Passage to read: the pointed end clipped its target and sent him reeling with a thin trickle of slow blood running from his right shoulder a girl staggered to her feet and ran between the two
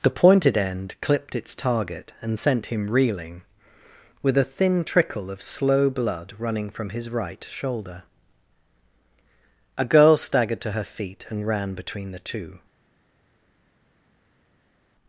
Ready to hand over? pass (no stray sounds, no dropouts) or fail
pass